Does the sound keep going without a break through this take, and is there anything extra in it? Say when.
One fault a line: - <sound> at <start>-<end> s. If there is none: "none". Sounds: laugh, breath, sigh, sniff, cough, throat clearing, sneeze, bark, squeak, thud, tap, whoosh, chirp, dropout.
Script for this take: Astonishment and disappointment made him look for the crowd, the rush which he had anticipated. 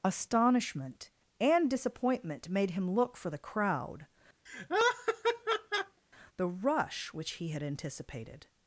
- laugh at 4.5-6.0 s